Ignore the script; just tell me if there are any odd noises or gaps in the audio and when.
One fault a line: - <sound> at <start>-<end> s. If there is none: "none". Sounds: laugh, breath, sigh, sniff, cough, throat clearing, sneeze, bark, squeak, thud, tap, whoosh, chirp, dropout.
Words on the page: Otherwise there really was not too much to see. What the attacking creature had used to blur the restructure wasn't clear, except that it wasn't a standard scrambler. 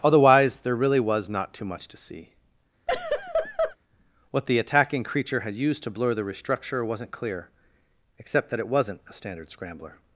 - laugh at 2.9-3.8 s